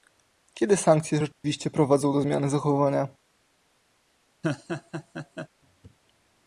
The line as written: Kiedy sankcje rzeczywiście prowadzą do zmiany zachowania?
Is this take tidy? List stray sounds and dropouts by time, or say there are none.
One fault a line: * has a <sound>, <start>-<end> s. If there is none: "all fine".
* has a dropout, 1.3-1.4 s
* has a laugh, 4.4-5.5 s